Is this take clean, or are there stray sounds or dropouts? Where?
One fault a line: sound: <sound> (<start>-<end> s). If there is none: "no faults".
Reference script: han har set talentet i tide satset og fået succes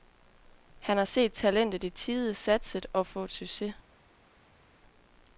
no faults